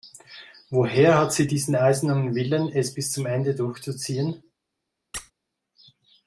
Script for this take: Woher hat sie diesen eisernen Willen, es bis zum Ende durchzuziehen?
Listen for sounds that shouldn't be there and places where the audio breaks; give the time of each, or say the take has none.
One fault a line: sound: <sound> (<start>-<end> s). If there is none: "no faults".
sound: squeak (5.1-5.3 s)